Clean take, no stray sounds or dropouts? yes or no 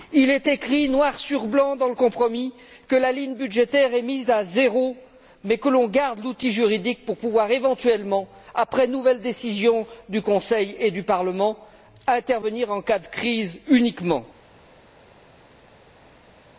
yes